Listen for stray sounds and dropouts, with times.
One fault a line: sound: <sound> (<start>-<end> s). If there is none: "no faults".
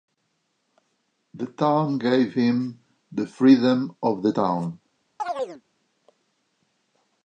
sound: chirp (5.2-5.6 s)